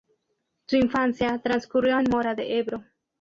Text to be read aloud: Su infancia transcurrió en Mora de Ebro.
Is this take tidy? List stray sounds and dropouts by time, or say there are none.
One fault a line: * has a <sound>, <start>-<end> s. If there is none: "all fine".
all fine